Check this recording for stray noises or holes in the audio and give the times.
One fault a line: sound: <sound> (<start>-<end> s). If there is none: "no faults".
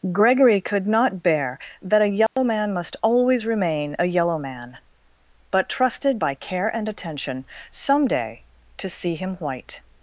sound: dropout (2.3-2.4 s)